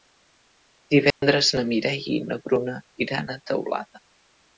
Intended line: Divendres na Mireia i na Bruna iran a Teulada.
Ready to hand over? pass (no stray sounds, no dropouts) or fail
fail